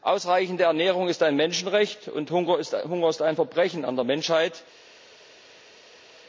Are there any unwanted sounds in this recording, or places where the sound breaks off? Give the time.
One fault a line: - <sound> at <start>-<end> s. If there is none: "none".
none